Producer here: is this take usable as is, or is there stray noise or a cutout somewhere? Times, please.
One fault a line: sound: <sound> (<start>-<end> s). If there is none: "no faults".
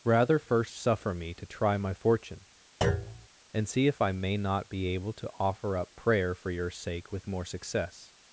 sound: thud (2.8-3.3 s)